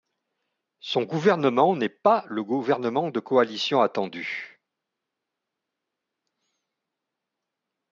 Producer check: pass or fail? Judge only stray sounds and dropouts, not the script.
pass